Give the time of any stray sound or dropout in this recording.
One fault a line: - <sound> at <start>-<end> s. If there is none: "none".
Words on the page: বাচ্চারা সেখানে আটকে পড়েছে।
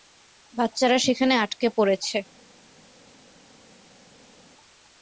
none